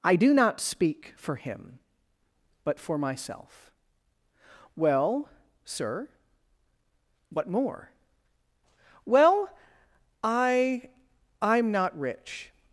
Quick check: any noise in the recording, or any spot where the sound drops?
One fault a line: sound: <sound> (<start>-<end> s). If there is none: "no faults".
no faults